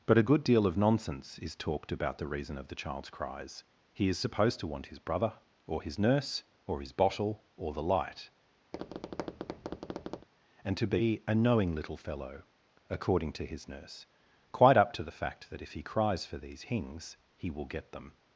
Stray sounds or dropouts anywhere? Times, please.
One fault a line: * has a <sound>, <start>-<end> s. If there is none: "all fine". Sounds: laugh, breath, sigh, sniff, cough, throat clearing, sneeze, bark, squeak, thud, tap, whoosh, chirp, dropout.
* has a tap, 8.7-10.3 s